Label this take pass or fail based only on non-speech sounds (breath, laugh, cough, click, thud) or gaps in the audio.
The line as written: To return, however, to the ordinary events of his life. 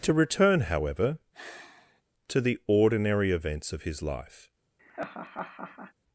fail